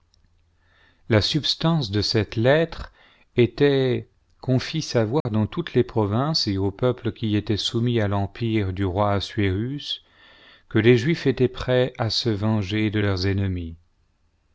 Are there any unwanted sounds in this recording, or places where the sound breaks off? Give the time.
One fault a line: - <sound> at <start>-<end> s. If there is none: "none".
- dropout at 5.2-5.3 s